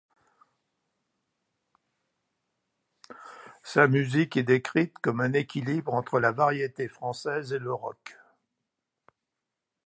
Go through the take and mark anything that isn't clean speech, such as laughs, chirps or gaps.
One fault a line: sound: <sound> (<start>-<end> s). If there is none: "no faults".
no faults